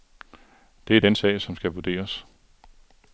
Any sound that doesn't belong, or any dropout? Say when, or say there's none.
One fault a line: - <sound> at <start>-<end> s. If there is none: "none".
none